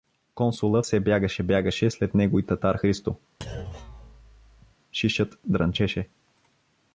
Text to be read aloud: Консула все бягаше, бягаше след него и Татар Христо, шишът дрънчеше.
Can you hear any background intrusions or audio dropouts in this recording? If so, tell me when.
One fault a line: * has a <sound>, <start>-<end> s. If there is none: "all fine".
* has a thud, 3.4-4.8 s